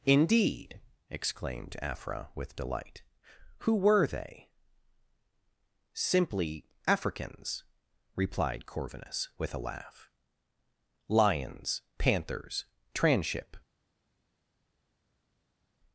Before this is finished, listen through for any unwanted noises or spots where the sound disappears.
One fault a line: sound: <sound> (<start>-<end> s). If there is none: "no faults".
no faults